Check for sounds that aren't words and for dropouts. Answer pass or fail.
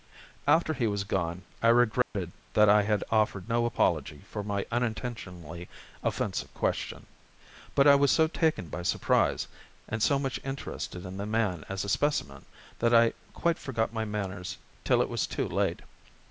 fail